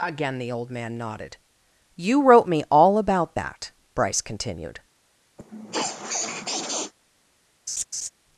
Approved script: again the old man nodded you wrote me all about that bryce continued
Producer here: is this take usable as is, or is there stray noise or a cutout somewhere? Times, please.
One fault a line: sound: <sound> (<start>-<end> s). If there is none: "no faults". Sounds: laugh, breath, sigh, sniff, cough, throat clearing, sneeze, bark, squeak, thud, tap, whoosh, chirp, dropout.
sound: sniff (5.4-6.9 s)
sound: laugh (7.7-8.1 s)